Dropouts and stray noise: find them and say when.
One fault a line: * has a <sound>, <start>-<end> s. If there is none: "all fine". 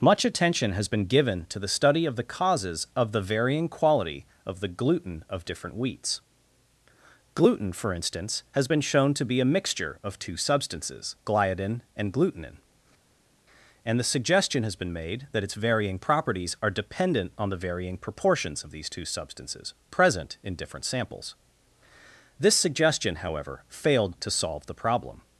all fine